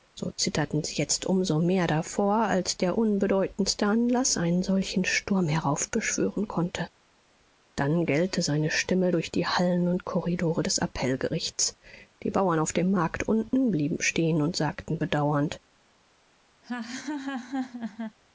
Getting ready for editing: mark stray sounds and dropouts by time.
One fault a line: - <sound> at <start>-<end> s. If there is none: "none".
- laugh at 16.6-18.2 s